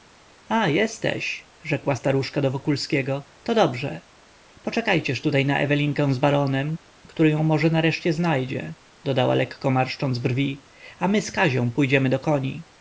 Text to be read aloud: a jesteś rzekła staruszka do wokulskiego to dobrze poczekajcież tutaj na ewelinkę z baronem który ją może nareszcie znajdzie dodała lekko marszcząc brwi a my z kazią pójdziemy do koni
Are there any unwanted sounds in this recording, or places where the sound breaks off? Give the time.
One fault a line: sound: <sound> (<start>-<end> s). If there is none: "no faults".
no faults